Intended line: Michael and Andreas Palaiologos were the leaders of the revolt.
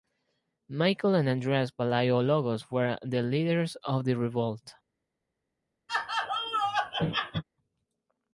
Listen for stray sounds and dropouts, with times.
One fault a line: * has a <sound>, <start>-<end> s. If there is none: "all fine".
* has a laugh, 5.9-7.4 s